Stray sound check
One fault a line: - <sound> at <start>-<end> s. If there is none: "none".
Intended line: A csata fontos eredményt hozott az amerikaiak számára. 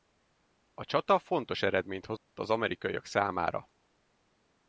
- dropout at 2.2-2.3 s